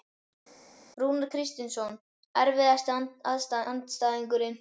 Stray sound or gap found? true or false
false